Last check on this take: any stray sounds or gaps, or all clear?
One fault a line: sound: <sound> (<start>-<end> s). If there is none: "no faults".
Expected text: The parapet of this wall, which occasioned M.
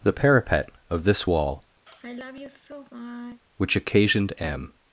sound: sigh (1.9-3.4 s)